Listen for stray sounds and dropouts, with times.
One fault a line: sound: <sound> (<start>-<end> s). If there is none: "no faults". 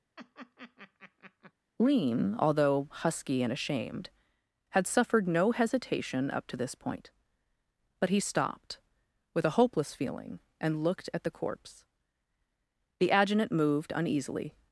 sound: laugh (0.2-1.5 s)